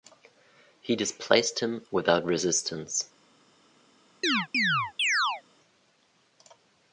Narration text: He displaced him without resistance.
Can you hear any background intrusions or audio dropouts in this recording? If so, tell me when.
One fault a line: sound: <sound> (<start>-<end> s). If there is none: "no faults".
sound: chirp (4.2-5.4 s)